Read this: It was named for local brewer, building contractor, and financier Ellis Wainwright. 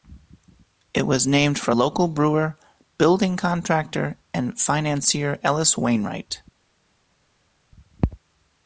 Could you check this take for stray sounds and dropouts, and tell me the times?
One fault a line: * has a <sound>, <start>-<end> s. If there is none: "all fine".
all fine